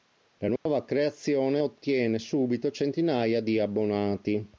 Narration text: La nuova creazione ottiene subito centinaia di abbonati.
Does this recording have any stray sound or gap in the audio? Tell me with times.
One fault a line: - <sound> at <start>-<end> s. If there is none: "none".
- dropout at 0.6-0.7 s